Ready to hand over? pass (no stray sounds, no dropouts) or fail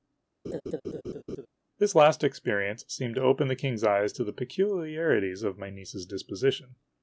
fail